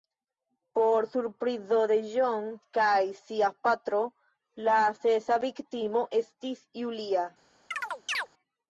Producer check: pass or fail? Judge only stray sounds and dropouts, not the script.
fail